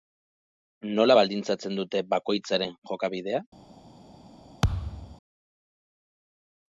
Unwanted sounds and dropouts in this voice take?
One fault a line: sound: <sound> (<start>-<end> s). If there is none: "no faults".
sound: thud (4.6-5.2 s)